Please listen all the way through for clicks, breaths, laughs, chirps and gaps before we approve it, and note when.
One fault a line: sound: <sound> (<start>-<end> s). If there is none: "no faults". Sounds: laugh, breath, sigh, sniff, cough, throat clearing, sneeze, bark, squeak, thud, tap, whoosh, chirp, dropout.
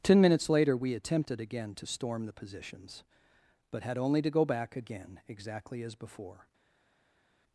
no faults